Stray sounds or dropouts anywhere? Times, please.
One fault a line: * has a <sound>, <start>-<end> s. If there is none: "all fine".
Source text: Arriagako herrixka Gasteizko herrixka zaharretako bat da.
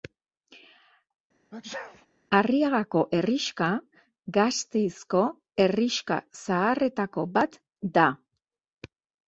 * has a sneeze, 1.5-2.1 s